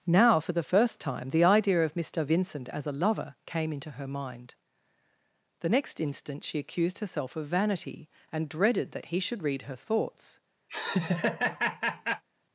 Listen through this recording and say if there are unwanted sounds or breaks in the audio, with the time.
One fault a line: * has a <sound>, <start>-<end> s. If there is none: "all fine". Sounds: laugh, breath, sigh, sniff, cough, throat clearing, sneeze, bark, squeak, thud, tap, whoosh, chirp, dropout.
* has a laugh, 10.7-12.2 s